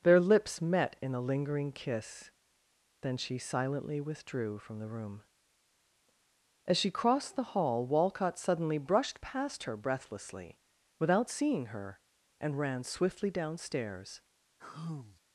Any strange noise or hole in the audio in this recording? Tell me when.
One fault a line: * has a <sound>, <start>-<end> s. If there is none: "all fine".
* has a sigh, 14.6-15.2 s